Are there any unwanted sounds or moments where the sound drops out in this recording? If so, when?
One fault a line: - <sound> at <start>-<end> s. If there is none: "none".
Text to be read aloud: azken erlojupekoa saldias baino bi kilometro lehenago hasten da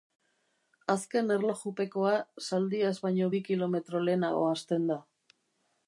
none